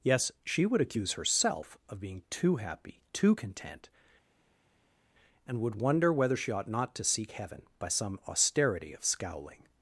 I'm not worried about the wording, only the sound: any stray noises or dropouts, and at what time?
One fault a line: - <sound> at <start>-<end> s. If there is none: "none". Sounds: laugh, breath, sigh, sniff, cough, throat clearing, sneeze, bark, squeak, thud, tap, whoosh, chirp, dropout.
none